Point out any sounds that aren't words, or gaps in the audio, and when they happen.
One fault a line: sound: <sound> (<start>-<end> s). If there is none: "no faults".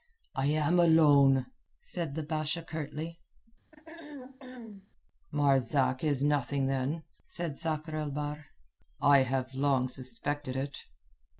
sound: throat clearing (3.7-4.9 s)